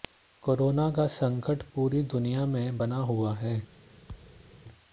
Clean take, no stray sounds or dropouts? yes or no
no